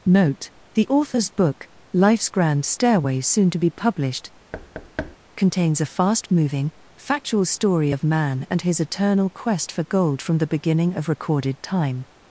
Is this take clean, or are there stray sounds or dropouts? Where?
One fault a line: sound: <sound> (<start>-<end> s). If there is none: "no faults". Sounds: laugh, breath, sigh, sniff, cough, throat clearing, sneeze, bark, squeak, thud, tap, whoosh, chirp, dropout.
sound: thud (4.5-5.2 s)